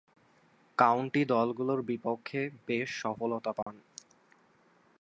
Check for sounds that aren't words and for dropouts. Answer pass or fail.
fail